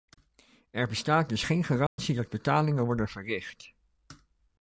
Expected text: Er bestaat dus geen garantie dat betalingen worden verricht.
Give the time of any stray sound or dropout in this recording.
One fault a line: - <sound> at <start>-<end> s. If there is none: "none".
- dropout at 1.9-2.0 s